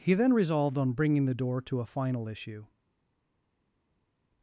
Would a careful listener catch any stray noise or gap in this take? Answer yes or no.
no